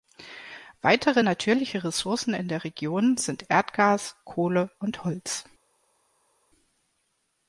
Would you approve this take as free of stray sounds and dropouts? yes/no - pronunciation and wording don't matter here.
yes